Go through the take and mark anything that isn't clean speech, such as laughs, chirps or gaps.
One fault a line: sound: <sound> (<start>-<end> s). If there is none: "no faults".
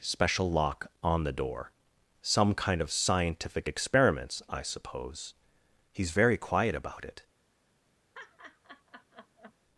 sound: laugh (8.1-9.5 s)